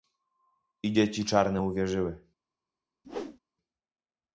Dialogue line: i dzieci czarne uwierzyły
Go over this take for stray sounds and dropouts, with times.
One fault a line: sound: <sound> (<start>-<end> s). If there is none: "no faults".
sound: whoosh (3.0-3.4 s)